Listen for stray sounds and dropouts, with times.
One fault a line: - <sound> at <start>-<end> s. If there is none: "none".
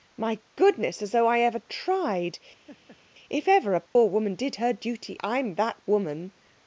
- laugh at 2.7-3.0 s
- dropout at 3.9-4.0 s